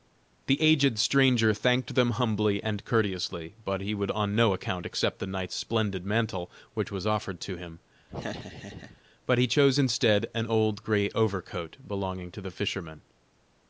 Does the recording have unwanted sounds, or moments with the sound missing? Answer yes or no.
yes